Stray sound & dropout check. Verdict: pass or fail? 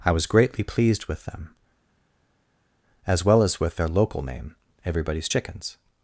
pass